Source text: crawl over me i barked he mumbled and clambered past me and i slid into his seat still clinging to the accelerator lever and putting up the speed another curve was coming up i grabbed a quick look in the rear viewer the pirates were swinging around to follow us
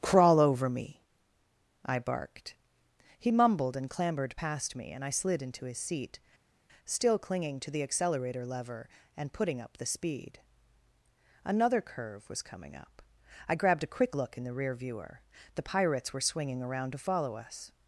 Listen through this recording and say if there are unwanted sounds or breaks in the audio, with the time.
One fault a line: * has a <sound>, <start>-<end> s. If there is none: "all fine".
all fine